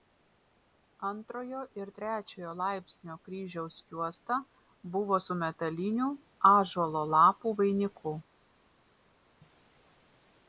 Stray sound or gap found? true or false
false